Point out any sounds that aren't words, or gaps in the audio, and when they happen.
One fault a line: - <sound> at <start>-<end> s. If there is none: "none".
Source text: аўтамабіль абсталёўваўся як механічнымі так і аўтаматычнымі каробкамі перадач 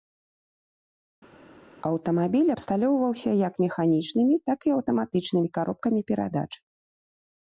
none